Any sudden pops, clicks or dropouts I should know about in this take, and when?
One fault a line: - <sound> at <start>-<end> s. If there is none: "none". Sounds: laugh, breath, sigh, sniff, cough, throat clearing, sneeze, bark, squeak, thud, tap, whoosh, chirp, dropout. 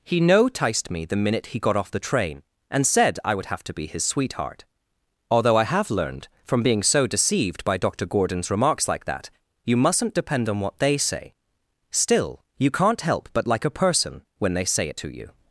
none